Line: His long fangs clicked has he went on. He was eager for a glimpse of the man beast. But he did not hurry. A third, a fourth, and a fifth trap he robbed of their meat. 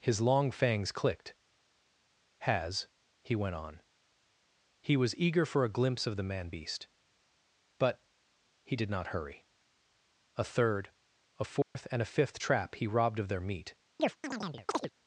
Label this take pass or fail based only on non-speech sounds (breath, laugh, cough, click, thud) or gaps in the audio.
fail